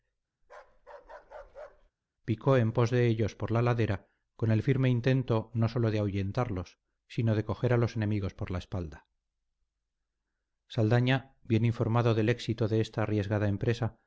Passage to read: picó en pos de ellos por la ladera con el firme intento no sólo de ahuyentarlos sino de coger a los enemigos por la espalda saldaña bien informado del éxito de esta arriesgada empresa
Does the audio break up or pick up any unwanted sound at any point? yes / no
yes